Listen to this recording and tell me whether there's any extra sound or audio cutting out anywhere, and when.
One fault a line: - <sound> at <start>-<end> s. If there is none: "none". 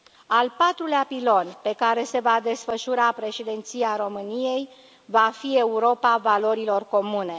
none